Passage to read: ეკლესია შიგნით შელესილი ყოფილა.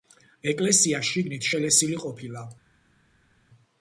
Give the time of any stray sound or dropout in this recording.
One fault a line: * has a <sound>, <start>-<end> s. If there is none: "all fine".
all fine